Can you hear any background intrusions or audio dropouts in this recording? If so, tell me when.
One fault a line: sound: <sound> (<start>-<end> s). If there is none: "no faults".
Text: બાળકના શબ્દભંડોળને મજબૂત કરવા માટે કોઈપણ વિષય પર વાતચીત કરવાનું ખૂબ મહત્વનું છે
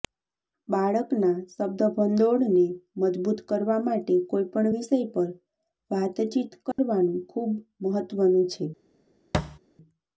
sound: dropout (6.7-6.8 s)
sound: thud (9.3-9.6 s)